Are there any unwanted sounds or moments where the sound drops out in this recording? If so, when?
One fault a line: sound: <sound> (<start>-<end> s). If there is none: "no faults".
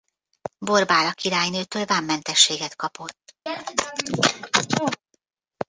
sound: sneeze (3.5-5.0 s)